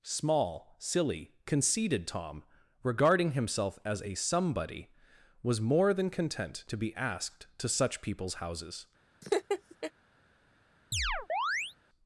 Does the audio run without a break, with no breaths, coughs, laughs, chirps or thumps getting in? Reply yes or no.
no